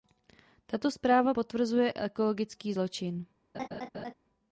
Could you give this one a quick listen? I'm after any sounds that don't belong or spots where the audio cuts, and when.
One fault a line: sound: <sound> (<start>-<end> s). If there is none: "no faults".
sound: laugh (3.5-4.1 s)